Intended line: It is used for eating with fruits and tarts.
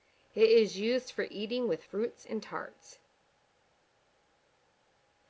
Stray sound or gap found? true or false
false